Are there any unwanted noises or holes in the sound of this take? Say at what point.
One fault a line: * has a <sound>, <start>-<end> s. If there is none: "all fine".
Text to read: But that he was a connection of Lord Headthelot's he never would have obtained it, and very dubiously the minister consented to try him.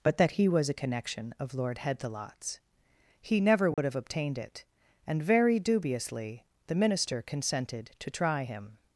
* has a dropout, 3.7-3.8 s